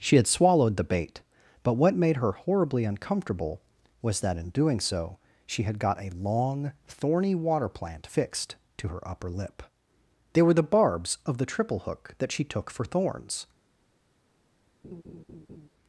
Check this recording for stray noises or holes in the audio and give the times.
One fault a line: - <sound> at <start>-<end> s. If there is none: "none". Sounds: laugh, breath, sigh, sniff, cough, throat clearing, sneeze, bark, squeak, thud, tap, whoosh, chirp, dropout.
- laugh at 14.8-15.7 s